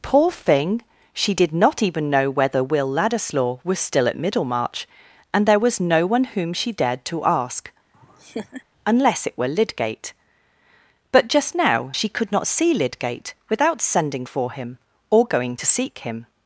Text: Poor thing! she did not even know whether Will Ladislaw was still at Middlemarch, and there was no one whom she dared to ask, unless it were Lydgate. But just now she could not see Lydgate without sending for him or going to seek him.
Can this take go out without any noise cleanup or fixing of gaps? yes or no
no